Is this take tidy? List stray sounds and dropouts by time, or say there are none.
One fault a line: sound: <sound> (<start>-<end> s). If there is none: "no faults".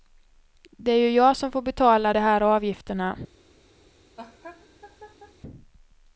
sound: laugh (4.2-5.4 s)